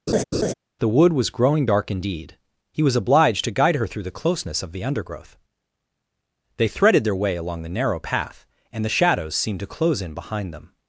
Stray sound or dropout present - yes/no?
yes